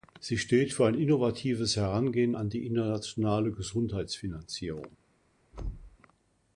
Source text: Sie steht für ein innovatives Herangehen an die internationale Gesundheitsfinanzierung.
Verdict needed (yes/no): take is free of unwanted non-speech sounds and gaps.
no